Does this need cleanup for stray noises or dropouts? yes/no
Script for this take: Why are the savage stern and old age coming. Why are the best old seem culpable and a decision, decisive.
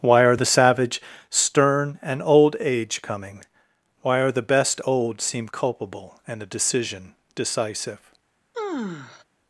yes